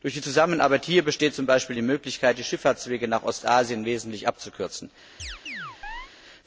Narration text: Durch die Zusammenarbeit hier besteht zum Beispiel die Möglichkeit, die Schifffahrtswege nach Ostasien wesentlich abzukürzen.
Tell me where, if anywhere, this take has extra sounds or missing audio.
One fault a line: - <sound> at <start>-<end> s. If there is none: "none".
- chirp at 5.2-6.1 s